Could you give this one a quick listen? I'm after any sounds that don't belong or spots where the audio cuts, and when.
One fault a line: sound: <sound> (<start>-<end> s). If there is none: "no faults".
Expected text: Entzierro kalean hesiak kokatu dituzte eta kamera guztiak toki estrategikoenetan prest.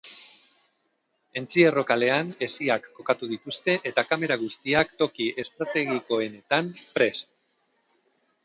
no faults